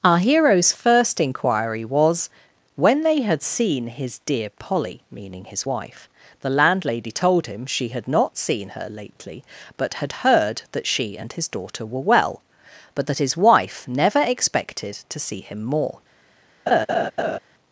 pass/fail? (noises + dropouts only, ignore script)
fail